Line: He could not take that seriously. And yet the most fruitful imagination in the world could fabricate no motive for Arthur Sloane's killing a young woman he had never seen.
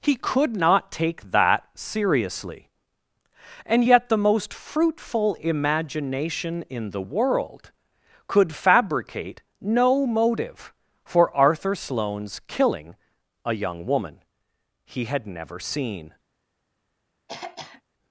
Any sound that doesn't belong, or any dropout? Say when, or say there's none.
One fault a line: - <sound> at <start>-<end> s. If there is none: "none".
- throat clearing at 17.3-17.8 s